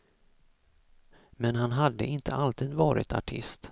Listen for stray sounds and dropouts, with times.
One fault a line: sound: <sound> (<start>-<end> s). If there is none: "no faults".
no faults